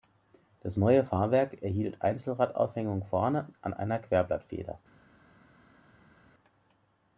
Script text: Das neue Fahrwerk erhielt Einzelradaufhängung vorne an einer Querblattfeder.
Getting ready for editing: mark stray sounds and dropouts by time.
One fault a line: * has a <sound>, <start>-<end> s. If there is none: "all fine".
all fine